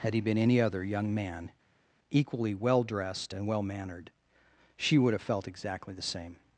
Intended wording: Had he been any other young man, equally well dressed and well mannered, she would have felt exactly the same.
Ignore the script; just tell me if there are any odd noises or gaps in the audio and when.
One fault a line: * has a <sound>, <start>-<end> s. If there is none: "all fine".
all fine